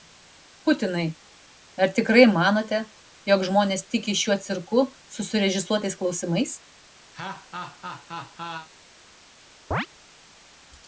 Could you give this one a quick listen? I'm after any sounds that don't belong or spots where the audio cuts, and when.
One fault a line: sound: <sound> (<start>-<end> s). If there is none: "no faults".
sound: laugh (7.1-8.7 s)
sound: chirp (9.7-9.9 s)